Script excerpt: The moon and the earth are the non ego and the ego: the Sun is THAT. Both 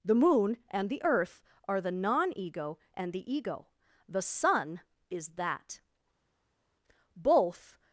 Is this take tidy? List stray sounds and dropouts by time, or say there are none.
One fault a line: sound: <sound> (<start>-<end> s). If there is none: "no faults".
no faults